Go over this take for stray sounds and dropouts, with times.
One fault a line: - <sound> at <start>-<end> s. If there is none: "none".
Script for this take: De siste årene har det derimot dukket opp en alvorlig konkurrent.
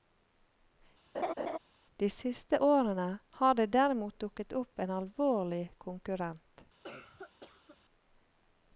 - laugh at 1.1-1.6 s
- cough at 6.8-7.8 s